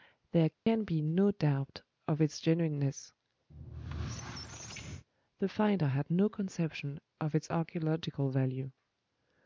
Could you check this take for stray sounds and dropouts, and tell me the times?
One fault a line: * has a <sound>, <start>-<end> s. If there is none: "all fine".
* has a dropout, 0.5-0.7 s
* has a squeak, 3.5-5.0 s